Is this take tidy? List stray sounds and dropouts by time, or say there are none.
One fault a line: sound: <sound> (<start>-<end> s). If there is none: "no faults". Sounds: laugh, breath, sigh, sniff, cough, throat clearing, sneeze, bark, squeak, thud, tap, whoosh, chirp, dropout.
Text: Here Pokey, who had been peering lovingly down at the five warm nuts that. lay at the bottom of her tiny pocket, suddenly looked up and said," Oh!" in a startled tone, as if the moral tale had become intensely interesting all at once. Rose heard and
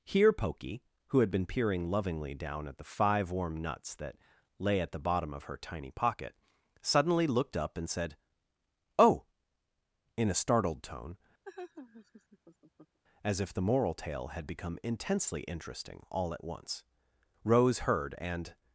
sound: laugh (11.4-13.0 s)